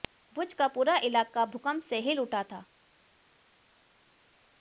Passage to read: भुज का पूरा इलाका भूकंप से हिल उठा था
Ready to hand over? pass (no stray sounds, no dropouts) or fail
pass